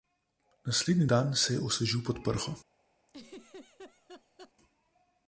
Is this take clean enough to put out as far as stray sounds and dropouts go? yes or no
no